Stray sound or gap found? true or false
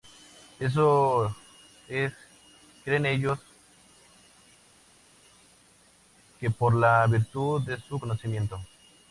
false